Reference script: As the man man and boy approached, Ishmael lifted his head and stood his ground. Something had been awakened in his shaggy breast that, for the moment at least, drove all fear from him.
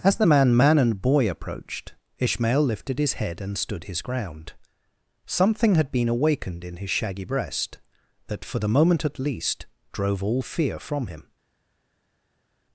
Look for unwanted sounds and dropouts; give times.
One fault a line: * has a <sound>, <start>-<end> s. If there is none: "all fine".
all fine